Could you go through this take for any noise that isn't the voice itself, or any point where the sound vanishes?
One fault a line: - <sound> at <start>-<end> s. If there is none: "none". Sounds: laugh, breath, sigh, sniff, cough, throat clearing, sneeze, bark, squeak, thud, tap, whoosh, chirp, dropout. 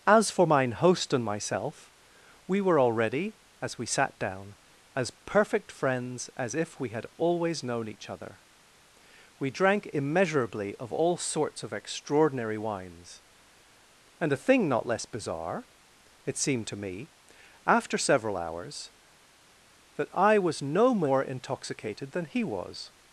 none